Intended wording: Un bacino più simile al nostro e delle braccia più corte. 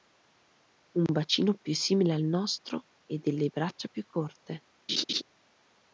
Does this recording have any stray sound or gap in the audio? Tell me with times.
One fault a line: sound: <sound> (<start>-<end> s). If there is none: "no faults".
sound: laugh (4.9-5.2 s)